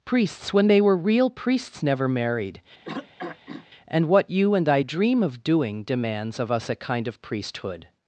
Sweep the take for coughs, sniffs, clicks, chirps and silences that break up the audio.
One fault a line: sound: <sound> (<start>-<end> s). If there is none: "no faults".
sound: throat clearing (2.8-3.7 s)